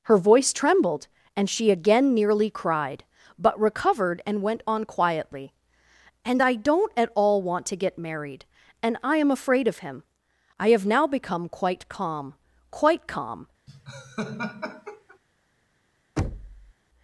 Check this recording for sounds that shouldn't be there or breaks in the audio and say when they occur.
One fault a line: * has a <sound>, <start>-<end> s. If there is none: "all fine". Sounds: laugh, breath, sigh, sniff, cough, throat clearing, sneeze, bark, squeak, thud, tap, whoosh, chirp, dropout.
* has a laugh, 13.7-15.2 s
* has a thud, 16.2-16.7 s